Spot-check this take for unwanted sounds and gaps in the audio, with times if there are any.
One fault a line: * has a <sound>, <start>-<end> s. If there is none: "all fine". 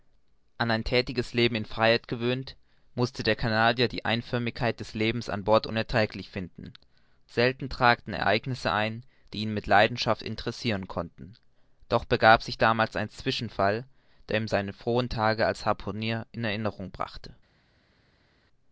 all fine